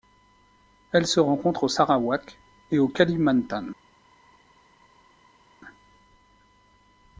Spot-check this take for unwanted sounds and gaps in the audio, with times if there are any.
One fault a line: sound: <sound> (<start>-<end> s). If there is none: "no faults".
no faults